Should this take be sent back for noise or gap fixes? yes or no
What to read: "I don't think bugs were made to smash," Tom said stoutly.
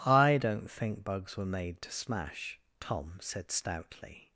no